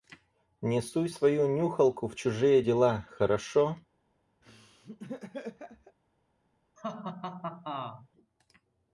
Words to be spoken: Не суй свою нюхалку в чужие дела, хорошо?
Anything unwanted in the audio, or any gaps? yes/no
yes